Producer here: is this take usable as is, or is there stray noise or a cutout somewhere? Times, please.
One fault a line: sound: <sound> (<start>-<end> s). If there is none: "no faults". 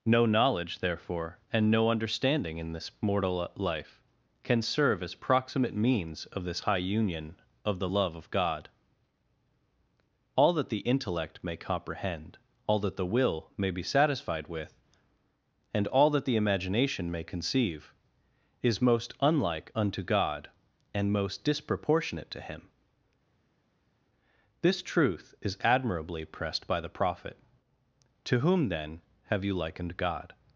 no faults